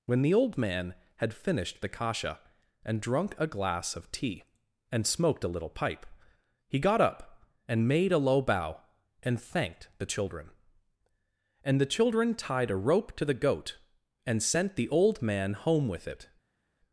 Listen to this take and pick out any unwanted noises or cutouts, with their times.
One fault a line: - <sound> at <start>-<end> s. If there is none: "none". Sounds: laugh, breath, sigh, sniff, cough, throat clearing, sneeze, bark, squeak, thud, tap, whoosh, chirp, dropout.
none